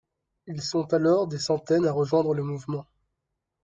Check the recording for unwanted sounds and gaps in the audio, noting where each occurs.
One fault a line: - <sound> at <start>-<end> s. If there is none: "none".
none